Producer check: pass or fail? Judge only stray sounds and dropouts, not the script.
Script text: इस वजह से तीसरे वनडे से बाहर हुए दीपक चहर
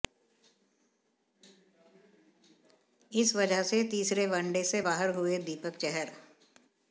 pass